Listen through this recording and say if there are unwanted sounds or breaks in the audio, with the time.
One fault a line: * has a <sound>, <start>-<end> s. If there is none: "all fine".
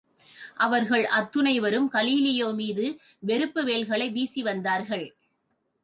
all fine